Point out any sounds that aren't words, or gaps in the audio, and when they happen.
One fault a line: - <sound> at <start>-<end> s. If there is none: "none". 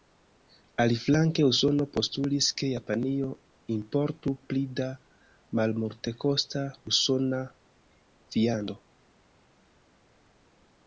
none